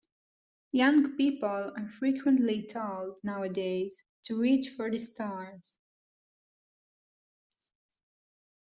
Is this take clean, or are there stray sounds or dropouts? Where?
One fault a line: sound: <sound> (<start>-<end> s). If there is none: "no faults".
no faults